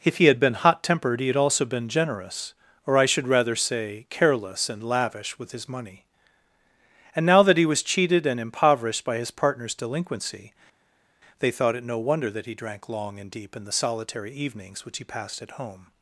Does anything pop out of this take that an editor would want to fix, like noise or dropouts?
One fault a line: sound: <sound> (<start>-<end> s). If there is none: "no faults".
no faults